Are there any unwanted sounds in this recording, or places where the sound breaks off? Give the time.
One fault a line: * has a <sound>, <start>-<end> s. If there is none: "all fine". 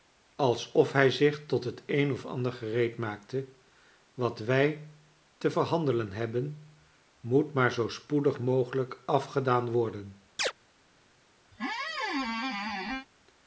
* has a chirp, 10.4-10.5 s
* has a squeak, 11.5-13.1 s